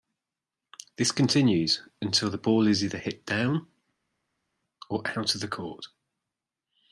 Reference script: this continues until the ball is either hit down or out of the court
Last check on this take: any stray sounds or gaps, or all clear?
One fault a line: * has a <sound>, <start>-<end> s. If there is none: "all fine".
all fine